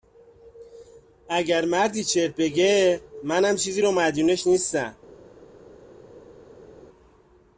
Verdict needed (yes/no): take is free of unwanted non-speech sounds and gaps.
yes